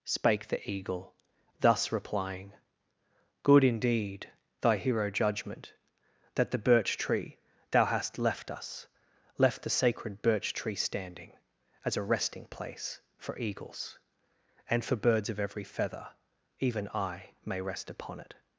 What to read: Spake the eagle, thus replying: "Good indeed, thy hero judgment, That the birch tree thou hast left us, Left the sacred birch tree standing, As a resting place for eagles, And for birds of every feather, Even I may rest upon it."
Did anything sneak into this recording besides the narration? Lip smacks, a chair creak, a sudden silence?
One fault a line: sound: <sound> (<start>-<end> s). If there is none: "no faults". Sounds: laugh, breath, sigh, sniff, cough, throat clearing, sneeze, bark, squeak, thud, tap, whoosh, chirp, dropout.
no faults